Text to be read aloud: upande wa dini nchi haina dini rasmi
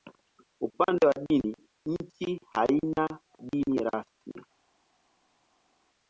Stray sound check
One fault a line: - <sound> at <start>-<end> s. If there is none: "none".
none